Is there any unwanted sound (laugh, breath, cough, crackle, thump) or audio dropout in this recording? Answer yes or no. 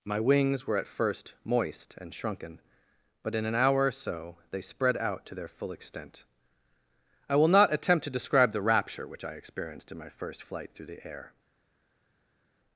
no